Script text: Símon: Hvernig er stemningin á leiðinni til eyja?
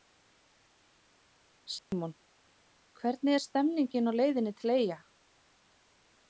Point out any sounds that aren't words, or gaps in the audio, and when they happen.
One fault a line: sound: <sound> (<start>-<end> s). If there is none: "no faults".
sound: dropout (1.8-1.9 s)